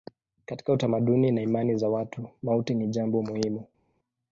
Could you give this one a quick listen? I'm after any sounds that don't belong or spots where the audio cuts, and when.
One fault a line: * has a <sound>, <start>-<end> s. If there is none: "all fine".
all fine